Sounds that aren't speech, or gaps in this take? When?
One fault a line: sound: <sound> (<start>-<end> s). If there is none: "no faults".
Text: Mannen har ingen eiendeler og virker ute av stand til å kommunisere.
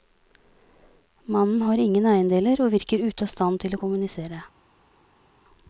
no faults